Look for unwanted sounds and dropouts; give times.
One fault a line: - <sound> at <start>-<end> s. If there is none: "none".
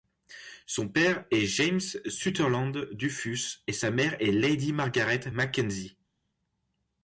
none